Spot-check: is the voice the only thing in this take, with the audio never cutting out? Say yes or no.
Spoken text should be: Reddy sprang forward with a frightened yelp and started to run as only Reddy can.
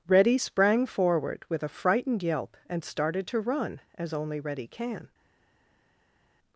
yes